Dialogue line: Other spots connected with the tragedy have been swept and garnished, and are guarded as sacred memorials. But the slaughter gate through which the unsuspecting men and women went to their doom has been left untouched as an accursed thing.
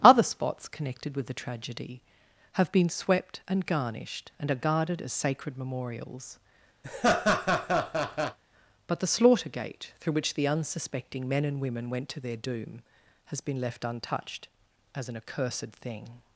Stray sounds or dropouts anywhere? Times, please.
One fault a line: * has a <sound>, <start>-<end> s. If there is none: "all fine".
* has a laugh, 6.8-8.4 s